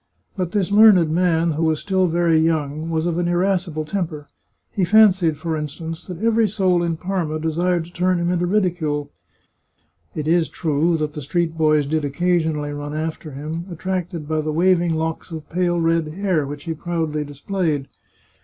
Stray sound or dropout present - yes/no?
no